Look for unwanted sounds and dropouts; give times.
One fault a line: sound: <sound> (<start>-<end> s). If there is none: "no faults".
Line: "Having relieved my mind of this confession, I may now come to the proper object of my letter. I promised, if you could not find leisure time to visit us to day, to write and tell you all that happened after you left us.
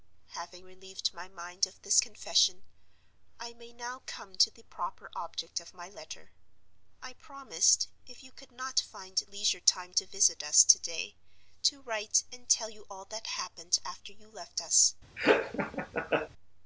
sound: laugh (15.2-16.3 s)